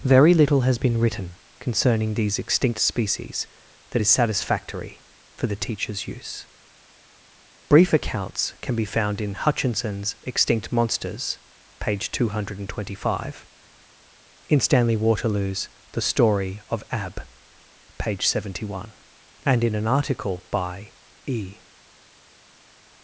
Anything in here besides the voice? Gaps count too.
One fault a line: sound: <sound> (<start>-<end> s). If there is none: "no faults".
no faults